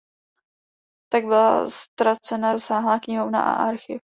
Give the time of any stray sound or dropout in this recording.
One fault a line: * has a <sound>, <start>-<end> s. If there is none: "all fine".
all fine